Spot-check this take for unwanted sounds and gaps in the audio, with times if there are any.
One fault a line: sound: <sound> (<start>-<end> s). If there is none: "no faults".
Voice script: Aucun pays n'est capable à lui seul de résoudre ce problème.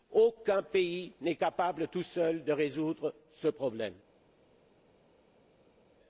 no faults